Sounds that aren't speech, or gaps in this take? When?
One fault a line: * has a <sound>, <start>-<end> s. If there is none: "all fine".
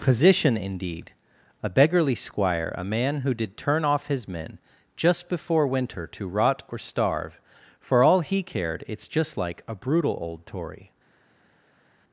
all fine